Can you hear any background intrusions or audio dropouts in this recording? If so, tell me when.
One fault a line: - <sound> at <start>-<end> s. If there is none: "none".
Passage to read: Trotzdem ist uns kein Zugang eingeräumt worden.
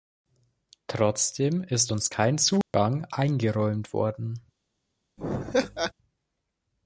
- dropout at 2.6-2.7 s
- laugh at 5.2-5.9 s